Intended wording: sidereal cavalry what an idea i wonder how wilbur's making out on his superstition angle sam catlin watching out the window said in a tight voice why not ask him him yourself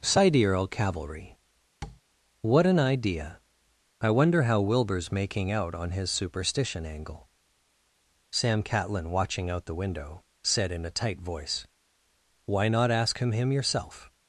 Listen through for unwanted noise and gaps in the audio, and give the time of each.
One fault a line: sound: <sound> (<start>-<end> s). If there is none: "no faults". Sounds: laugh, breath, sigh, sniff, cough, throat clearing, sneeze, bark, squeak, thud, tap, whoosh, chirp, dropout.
sound: tap (1.8-2.0 s)